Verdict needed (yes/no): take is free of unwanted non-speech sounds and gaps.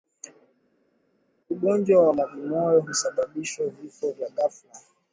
yes